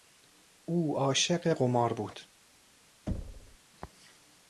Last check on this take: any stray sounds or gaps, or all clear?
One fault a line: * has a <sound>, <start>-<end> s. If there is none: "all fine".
* has a thud, 3.1-3.6 s